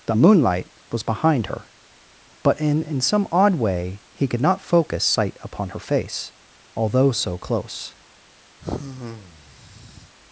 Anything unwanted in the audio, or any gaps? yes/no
yes